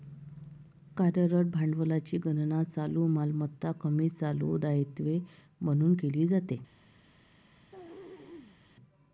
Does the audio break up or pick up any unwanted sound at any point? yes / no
yes